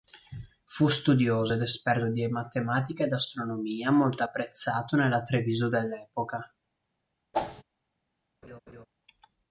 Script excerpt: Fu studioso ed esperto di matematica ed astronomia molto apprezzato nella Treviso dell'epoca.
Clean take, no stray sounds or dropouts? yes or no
no